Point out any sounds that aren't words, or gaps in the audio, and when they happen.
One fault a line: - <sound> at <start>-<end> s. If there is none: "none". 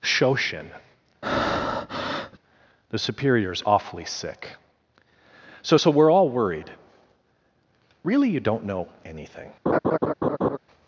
- breath at 1.2-2.4 s
- laugh at 9.7-10.6 s